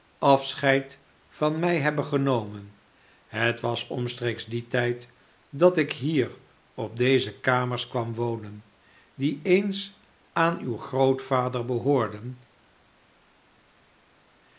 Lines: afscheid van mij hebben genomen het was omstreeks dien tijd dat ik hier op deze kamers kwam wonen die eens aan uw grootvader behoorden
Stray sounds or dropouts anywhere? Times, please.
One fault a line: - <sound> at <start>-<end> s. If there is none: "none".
none